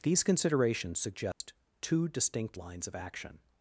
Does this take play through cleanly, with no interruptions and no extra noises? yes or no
no